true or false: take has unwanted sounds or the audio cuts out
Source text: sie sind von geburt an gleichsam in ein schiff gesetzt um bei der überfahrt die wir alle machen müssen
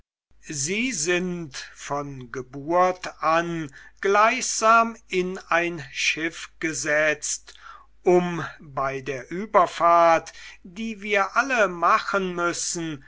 false